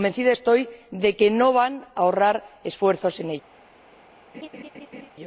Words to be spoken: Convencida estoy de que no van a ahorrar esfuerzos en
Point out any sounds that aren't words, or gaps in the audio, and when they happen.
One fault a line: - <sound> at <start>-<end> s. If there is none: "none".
- laugh at 4.3-5.1 s